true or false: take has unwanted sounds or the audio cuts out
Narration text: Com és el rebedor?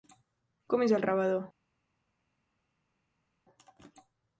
false